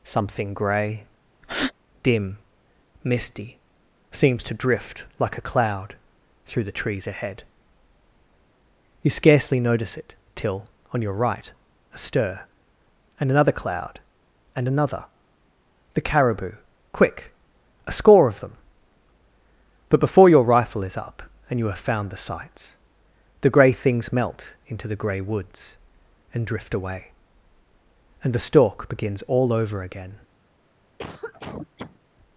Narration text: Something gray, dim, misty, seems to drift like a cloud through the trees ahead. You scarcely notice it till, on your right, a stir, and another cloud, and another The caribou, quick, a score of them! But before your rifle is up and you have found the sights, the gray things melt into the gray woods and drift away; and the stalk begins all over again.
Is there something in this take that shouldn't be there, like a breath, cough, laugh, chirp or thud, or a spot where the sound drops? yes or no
yes